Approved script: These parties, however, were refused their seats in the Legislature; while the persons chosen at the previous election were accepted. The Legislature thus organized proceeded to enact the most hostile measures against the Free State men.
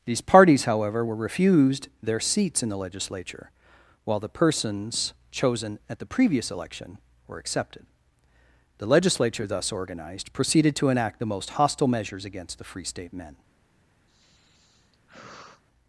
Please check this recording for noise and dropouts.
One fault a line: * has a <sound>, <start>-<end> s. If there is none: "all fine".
* has a sigh, 14.1-15.6 s